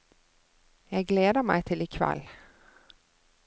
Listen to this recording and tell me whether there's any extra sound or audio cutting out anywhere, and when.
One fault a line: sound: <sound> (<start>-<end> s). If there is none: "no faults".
no faults